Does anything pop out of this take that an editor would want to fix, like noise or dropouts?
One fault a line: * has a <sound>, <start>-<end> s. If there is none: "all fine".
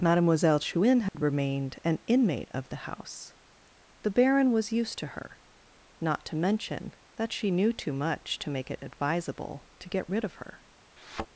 * has a dropout, 1.1-1.1 s
* has a thud, 11.0-11.3 s